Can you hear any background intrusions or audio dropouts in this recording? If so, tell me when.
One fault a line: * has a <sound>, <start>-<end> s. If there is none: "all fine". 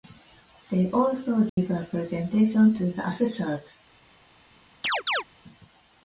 * has a dropout, 1.5-1.6 s
* has a chirp, 4.8-5.2 s